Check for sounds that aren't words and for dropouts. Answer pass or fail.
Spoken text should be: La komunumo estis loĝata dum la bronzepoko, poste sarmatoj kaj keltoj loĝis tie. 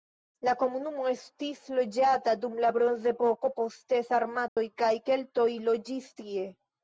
fail